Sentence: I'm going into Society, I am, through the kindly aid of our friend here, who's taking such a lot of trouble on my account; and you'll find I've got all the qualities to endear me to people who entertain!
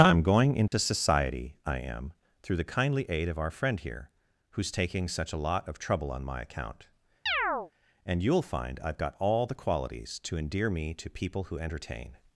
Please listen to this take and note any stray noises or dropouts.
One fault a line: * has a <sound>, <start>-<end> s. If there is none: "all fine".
* has a dropout, 0.7-0.7 s
* has a chirp, 7.3-7.7 s